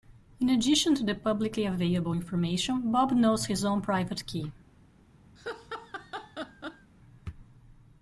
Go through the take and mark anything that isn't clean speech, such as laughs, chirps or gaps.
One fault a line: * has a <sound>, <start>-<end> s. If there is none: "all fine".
* has a laugh, 5.4-6.9 s